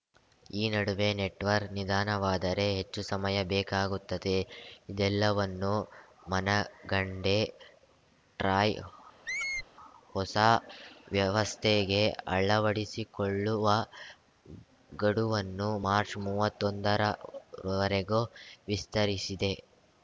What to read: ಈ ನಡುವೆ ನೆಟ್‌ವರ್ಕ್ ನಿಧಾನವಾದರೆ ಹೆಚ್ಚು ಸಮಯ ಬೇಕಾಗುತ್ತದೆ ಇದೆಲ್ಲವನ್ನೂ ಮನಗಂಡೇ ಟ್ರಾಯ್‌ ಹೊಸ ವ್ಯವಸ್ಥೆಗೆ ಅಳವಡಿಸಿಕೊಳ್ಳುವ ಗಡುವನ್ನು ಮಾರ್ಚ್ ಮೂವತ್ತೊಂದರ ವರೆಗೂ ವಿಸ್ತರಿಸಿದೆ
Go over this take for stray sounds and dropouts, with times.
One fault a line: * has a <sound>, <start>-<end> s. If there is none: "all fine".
* has a squeak, 9.3-9.7 s